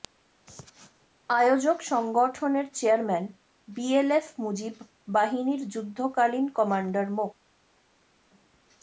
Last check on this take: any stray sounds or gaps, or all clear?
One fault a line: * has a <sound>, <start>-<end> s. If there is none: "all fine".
all fine